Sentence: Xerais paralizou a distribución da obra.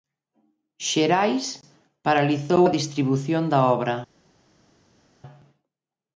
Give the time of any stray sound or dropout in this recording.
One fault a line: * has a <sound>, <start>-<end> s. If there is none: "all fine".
all fine